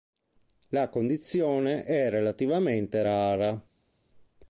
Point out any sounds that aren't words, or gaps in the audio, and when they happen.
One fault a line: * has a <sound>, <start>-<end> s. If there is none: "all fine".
all fine